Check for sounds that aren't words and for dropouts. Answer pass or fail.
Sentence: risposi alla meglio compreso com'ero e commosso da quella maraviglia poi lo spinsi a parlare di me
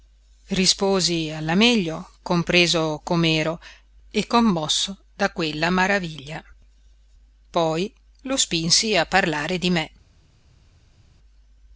pass